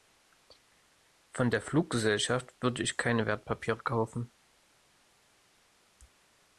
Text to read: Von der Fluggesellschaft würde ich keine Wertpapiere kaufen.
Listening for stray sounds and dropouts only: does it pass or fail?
pass